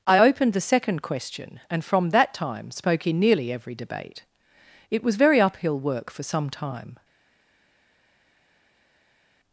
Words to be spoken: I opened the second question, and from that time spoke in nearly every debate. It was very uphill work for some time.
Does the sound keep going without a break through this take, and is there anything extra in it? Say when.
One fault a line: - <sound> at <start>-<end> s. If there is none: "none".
none